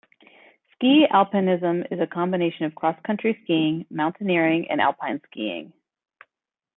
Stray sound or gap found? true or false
false